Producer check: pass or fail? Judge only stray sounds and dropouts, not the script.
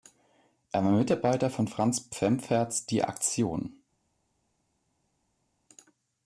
pass